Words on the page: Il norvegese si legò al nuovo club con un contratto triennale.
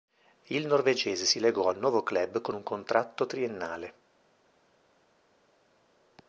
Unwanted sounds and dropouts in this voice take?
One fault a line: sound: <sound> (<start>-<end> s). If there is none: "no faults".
no faults